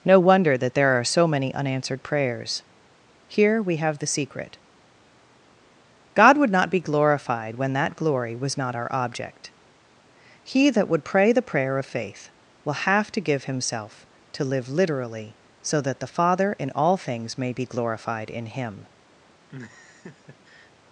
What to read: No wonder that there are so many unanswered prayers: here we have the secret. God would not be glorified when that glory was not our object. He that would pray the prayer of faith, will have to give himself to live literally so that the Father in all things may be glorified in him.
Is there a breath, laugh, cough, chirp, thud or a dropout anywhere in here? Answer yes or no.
yes